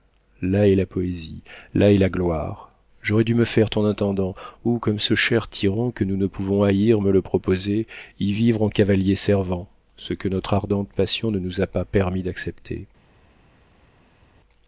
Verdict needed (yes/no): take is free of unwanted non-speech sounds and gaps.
yes